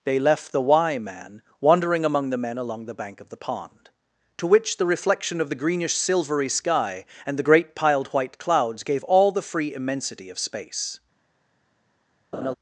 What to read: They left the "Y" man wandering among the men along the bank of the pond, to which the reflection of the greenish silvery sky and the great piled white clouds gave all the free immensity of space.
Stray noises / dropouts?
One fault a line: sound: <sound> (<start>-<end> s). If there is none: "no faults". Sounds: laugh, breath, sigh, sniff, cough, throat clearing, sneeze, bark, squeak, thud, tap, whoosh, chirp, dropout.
sound: laugh (12.3-12.5 s)